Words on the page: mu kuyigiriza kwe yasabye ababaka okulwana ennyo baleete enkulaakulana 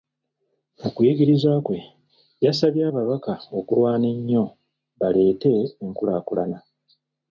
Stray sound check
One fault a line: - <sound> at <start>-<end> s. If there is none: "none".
none